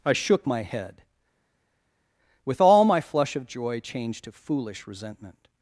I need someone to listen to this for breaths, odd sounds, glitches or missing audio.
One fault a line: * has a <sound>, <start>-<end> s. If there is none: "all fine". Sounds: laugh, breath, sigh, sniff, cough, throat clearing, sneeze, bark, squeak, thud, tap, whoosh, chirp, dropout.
all fine